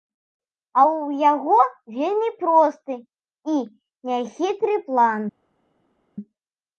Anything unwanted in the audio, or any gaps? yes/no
no